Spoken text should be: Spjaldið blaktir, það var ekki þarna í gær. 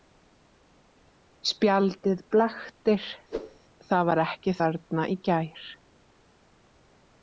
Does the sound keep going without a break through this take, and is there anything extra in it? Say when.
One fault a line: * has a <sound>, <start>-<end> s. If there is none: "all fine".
* has a whoosh, 3.3-3.6 s